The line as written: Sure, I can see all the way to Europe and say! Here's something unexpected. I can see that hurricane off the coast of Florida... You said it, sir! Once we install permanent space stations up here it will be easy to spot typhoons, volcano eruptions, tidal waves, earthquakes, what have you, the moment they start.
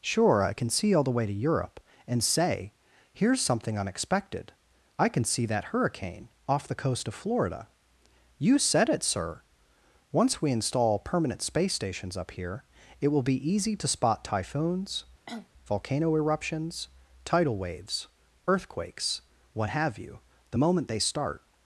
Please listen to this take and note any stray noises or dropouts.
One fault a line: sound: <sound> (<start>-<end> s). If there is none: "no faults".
sound: cough (15.3-15.5 s)